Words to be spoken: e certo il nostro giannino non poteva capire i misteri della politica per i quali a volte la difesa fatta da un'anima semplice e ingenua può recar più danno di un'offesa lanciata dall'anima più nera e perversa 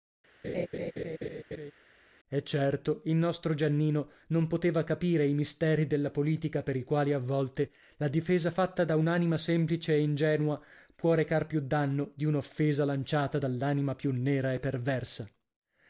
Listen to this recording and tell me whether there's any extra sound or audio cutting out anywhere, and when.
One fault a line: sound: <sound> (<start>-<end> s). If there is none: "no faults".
sound: laugh (0.4-1.7 s)